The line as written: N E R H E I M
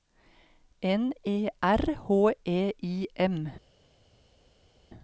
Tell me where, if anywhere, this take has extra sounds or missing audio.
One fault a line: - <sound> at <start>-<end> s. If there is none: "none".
none